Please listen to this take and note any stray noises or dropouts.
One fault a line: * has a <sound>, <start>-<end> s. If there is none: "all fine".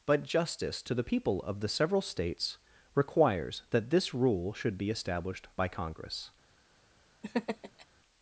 * has a laugh, 7.2-7.9 s